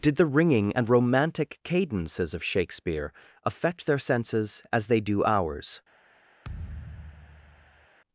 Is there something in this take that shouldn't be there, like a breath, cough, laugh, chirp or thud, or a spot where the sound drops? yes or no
yes